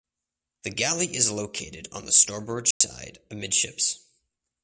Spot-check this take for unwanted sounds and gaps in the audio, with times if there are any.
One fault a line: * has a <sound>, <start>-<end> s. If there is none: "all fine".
* has a dropout, 2.7-2.8 s